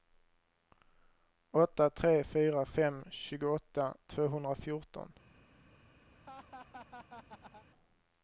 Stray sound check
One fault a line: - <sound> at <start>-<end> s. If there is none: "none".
- laugh at 6.1-7.7 s